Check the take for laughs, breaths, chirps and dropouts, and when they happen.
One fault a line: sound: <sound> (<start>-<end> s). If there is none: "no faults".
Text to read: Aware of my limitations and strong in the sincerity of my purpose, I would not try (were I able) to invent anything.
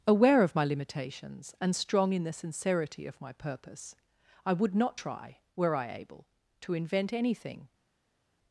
no faults